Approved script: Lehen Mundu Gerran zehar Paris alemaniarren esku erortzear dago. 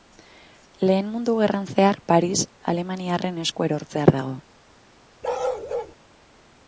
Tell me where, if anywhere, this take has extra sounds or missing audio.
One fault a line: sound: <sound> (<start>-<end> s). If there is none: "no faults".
sound: bark (5.2-5.9 s)